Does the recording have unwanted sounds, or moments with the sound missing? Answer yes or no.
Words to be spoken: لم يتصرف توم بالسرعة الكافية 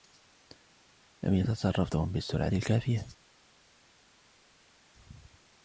no